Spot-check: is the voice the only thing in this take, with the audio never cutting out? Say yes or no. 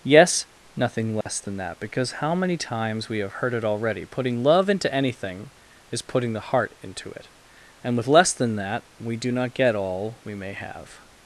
no